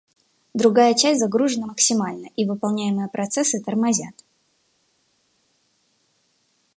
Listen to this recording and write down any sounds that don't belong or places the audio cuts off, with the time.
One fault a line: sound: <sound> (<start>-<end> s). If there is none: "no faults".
no faults